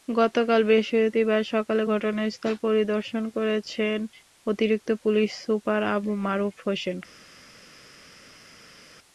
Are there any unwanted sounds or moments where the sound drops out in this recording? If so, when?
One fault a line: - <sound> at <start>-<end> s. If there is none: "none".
none